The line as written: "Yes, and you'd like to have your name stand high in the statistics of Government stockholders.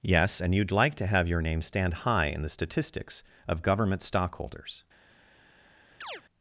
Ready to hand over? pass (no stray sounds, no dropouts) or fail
fail